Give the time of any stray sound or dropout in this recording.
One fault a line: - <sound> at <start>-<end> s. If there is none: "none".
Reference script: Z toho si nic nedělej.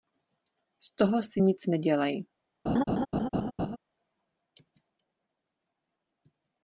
- laugh at 2.7-3.8 s